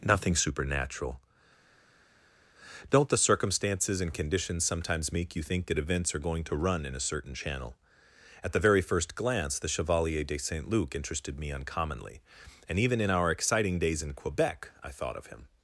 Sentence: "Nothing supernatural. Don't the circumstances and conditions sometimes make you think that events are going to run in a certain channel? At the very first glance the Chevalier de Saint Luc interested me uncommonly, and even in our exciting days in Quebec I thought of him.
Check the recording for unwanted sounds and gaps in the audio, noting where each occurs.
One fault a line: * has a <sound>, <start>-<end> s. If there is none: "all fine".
all fine